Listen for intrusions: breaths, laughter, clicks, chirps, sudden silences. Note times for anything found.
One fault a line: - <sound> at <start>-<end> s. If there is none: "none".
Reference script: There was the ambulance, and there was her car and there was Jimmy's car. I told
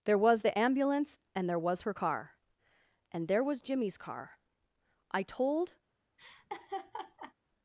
- laugh at 6.2-7.3 s